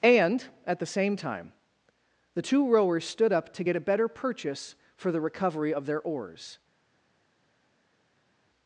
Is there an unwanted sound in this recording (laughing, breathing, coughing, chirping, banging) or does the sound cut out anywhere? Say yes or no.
no